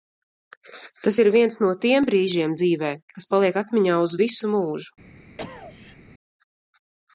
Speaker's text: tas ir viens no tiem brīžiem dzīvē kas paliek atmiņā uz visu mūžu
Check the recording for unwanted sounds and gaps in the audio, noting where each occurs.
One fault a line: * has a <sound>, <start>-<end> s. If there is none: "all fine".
* has a cough, 5.4-6.0 s